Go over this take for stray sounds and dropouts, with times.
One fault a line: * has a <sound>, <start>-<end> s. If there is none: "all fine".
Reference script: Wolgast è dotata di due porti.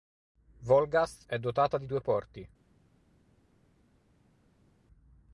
all fine